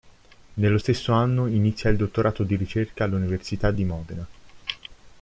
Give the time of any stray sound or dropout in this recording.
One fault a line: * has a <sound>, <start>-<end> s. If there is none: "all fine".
all fine